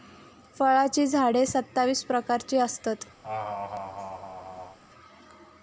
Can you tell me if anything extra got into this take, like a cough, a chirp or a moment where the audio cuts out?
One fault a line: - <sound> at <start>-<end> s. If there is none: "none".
- laugh at 3.2-4.8 s